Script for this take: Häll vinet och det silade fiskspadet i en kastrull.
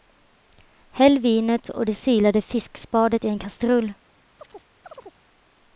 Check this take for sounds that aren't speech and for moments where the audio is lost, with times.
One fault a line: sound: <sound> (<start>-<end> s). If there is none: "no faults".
sound: chirp (4.4-5.2 s)